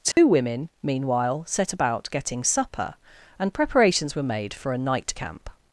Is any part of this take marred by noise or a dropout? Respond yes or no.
yes